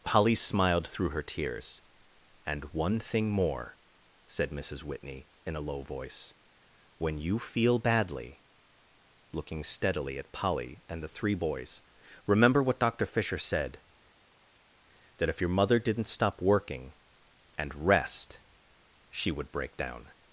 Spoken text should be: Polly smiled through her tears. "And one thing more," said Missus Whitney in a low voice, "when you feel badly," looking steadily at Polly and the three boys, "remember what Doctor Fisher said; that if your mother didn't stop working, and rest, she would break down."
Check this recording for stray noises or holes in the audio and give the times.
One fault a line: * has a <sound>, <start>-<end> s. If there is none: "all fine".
all fine